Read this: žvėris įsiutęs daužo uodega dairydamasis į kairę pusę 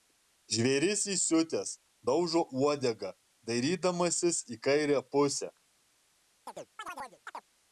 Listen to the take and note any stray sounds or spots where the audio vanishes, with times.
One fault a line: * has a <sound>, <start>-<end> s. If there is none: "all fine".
* has a chirp, 6.5-7.5 s